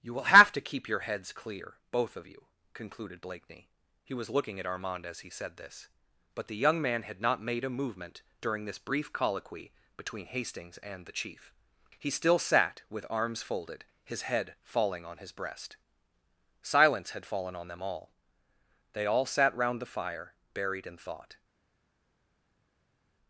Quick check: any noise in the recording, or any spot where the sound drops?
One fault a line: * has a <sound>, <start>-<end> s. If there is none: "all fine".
all fine